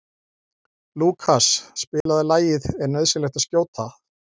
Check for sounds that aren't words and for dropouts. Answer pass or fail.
fail